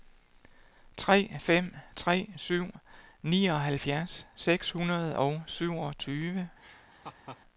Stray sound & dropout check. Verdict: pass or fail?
fail